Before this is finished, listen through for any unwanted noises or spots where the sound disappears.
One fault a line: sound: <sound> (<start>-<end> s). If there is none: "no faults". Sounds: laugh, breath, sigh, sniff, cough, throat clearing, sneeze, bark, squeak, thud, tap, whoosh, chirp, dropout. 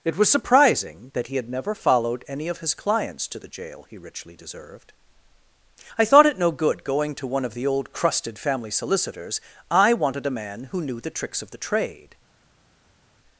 no faults